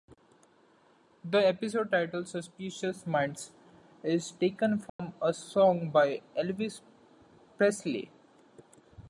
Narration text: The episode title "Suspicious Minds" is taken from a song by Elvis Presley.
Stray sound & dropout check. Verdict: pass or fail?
fail